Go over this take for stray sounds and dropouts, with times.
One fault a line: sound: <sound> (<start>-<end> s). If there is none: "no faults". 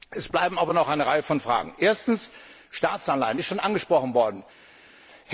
no faults